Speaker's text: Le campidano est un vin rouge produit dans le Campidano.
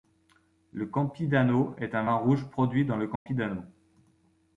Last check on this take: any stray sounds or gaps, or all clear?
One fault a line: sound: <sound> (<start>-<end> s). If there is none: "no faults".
sound: dropout (3.2-3.3 s)